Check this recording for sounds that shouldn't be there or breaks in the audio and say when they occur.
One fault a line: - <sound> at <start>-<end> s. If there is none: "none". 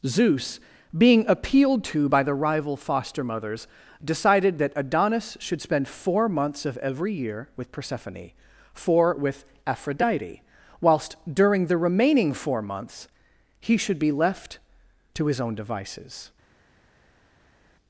none